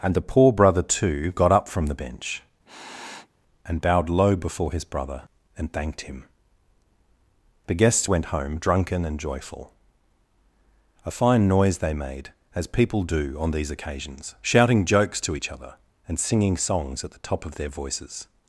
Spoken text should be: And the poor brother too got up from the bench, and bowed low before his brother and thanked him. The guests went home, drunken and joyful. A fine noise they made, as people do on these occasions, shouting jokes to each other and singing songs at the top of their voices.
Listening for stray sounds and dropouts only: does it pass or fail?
fail